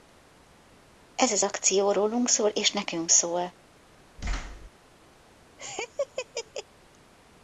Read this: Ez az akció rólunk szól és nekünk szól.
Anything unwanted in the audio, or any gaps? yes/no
yes